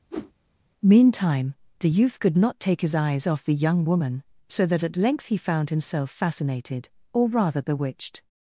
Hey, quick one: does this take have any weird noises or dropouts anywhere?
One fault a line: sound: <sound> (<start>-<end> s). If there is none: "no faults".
sound: whoosh (0.1-0.3 s)